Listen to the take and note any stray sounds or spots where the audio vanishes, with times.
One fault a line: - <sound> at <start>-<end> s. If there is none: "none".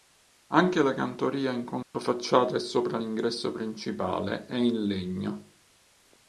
- dropout at 1.8-1.9 s